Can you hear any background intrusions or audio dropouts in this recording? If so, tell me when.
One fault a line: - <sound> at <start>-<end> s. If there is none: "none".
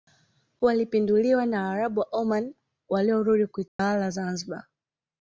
- dropout at 3.7-3.8 s